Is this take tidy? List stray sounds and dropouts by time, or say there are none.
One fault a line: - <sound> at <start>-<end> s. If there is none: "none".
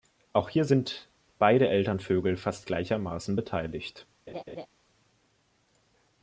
- laugh at 4.3-4.7 s